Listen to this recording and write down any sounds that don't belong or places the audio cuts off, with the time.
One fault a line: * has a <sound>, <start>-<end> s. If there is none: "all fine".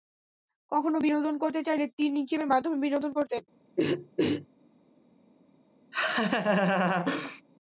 * has a throat clearing, 3.8-4.5 s
* has a laugh, 5.9-7.4 s